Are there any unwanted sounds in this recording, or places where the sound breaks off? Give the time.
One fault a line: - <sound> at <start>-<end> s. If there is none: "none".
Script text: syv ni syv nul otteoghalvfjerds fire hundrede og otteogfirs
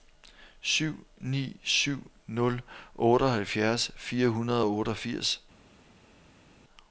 none